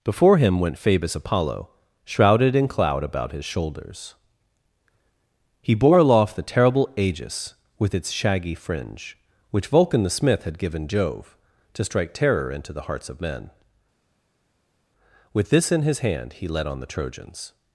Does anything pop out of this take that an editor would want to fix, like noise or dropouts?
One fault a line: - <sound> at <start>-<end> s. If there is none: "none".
none